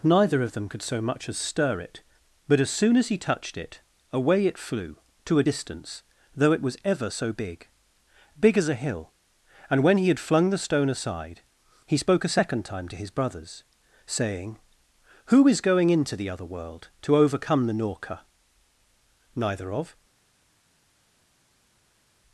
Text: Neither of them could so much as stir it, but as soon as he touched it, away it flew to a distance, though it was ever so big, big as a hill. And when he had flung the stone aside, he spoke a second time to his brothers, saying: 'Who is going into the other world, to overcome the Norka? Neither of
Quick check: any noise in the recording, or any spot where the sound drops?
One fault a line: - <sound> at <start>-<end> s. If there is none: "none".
none